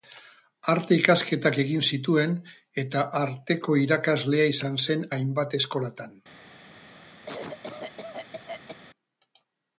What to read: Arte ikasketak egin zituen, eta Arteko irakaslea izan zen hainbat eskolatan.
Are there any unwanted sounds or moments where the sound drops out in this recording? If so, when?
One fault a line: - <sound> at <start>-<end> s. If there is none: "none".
- cough at 7.3-8.8 s